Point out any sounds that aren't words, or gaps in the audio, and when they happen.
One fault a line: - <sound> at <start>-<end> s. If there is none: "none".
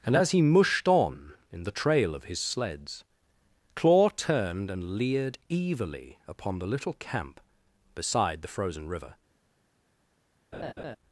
- laugh at 10.5-11.0 s